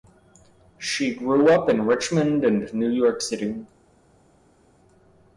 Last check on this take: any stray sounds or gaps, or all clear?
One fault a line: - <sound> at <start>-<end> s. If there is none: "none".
none